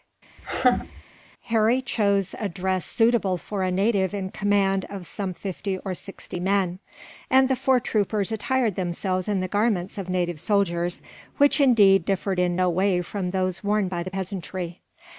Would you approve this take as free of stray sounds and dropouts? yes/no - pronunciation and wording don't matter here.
no